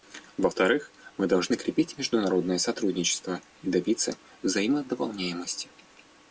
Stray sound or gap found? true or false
false